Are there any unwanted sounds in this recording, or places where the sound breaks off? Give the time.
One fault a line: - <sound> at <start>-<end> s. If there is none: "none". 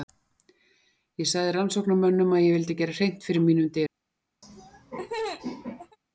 - laugh at 4.4-6.0 s